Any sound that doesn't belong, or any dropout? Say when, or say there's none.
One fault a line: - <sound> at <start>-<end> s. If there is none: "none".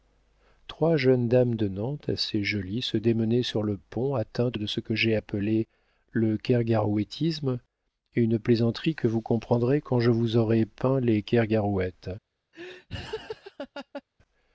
- laugh at 12.5-14.0 s